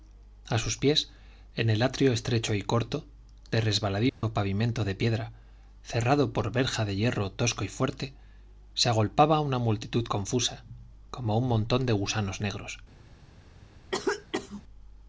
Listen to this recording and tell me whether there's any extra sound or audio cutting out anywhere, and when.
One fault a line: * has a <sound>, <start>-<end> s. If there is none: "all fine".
* has a dropout, 4.1-4.2 s
* has a cough, 13.9-14.6 s